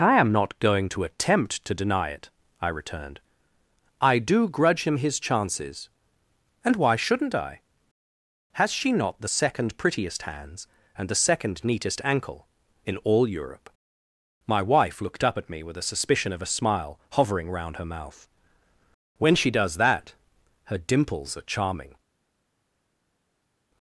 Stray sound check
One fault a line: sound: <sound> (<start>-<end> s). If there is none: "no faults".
no faults